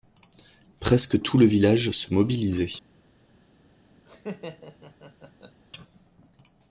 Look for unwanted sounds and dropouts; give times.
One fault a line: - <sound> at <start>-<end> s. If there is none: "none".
- laugh at 4.1-5.6 s